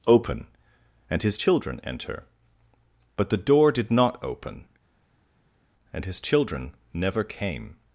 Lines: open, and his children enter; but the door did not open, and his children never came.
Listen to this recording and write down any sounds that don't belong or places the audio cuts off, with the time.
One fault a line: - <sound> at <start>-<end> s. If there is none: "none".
none